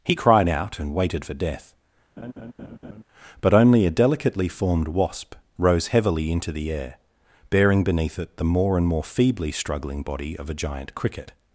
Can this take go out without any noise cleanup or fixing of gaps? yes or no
no